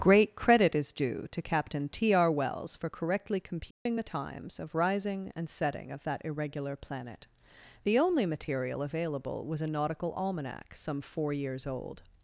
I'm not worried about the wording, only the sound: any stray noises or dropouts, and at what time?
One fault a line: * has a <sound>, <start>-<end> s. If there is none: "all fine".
* has a dropout, 3.7-3.9 s